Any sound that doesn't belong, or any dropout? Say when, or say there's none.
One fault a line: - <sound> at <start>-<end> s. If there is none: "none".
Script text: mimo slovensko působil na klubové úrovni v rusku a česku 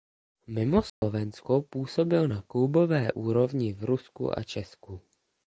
- dropout at 0.9-1.0 s